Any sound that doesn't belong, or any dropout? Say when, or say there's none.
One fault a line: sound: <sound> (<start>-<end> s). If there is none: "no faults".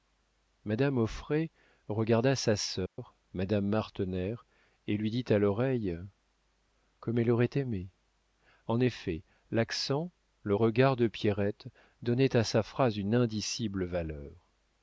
sound: dropout (2.9-3.0 s)